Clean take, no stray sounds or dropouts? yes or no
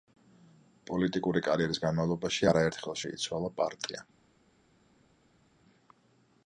yes